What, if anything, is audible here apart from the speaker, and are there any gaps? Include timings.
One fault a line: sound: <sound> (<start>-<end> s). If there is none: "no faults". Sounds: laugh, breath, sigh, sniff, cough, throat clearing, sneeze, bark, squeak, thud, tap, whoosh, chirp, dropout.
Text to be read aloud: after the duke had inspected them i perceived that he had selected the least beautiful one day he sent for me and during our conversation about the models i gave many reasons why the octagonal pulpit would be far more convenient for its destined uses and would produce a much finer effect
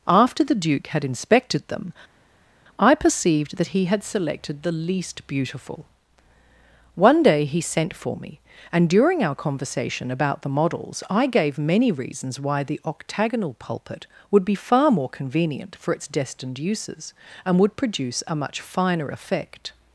no faults